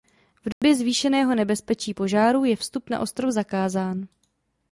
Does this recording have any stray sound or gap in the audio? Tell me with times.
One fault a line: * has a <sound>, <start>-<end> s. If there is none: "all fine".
* has a dropout, 0.5-0.6 s